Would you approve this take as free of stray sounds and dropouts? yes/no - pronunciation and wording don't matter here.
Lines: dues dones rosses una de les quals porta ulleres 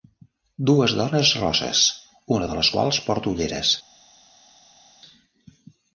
yes